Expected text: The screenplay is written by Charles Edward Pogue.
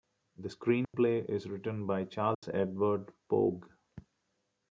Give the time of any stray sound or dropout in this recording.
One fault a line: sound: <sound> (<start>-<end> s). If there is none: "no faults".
sound: dropout (0.8-0.9 s)
sound: dropout (2.3-2.4 s)